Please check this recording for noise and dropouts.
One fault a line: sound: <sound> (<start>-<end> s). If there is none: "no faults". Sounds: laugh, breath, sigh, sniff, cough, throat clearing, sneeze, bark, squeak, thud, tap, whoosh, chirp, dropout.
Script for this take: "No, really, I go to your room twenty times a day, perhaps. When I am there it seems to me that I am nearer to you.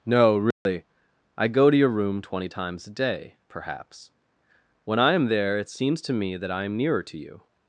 sound: dropout (0.5-0.7 s)